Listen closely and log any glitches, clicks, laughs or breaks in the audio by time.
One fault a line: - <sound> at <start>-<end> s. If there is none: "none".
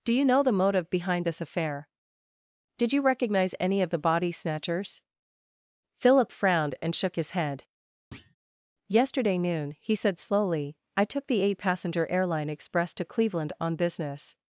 - thud at 8.1-8.4 s